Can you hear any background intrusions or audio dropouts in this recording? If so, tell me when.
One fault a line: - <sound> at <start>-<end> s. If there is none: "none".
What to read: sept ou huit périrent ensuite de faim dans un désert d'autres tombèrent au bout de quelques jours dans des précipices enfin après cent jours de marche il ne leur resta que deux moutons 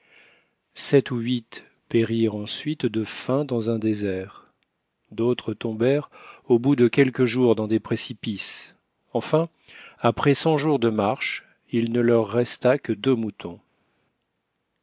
none